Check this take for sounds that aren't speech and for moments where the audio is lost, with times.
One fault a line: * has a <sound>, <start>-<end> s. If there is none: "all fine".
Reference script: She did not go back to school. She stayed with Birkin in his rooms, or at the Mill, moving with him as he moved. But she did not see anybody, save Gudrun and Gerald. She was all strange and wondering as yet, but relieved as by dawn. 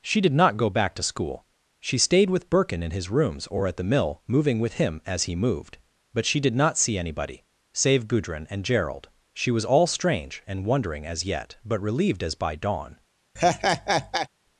* has a laugh, 13.4-14.3 s